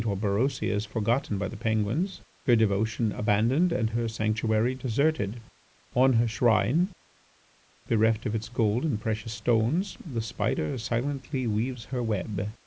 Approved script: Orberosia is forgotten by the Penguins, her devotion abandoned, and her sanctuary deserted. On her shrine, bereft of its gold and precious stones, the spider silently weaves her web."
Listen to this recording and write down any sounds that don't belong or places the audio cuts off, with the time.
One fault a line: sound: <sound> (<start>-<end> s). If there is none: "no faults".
no faults